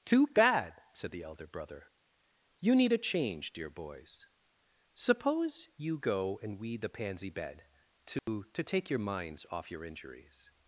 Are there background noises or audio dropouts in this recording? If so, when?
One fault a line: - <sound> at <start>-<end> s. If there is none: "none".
- dropout at 8.2-8.3 s